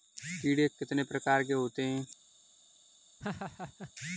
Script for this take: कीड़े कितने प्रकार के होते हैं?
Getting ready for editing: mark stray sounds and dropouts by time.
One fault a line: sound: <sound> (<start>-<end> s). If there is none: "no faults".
sound: laugh (3.2-3.9 s)